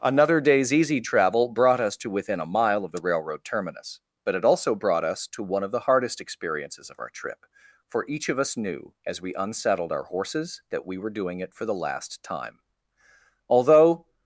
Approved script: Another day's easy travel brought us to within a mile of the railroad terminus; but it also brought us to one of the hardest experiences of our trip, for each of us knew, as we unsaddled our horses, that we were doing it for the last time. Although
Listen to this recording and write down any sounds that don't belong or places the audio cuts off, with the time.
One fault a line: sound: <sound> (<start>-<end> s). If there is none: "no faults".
no faults